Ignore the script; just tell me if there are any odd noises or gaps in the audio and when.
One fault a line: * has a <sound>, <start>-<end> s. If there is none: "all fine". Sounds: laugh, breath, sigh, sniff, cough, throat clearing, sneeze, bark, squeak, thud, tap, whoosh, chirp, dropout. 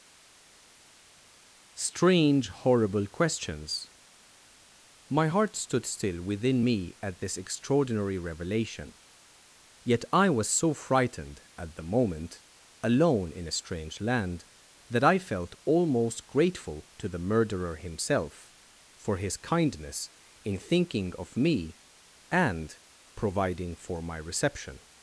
all fine